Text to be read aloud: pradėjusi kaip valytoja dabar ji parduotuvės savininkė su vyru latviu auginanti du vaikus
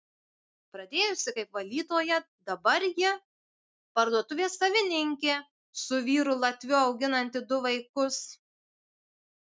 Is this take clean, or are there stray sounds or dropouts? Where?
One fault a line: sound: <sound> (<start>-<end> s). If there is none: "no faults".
no faults